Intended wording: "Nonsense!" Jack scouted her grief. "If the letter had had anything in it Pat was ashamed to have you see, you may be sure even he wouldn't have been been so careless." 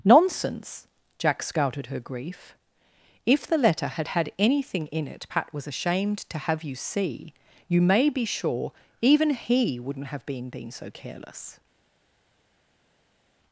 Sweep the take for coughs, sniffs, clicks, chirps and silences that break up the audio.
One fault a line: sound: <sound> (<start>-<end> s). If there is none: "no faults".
no faults